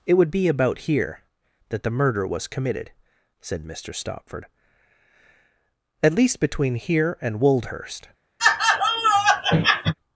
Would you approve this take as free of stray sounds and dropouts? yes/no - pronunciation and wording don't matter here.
no